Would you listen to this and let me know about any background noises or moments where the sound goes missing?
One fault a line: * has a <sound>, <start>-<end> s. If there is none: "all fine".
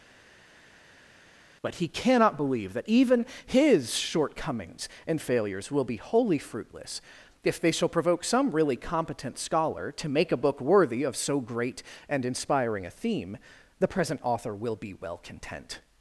all fine